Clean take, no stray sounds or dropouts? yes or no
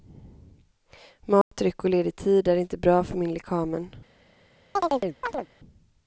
no